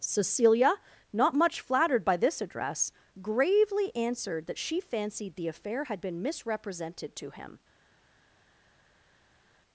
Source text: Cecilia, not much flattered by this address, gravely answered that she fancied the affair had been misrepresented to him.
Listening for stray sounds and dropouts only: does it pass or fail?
pass